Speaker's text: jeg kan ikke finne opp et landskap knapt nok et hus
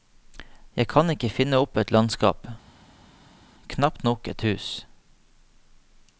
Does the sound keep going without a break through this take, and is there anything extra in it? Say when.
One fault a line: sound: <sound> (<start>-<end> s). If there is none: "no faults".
no faults